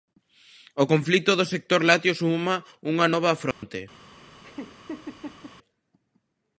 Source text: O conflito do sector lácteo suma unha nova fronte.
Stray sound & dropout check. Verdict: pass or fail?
fail